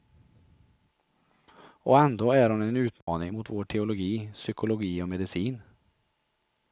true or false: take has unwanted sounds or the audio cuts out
true